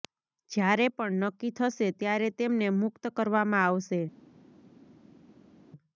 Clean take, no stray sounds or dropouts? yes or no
yes